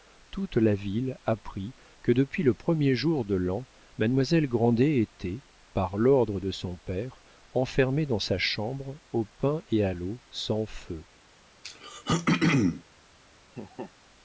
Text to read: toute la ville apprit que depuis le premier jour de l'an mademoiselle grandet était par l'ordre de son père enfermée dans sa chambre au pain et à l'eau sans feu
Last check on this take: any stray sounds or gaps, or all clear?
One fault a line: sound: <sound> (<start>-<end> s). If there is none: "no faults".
sound: throat clearing (11.6-12.8 s)
sound: laugh (13.5-13.9 s)